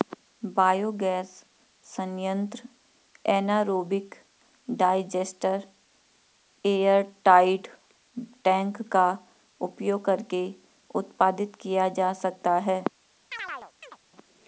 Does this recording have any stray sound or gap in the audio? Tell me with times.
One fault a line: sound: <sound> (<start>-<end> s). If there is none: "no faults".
sound: chirp (13.3-14.0 s)